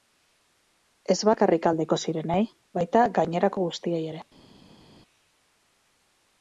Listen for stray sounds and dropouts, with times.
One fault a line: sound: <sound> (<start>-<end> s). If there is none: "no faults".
no faults